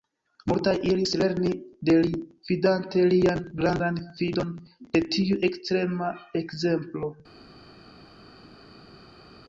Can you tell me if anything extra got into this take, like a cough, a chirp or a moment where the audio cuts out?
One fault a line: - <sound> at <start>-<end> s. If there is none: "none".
none